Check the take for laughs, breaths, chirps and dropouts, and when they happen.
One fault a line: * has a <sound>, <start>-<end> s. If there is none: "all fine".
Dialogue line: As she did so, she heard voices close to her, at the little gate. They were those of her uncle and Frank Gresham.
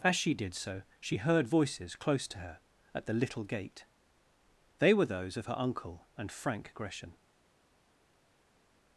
all fine